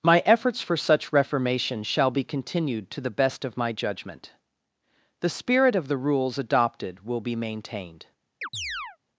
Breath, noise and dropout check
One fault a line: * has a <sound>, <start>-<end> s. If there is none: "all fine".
* has a chirp, 8.4-9.0 s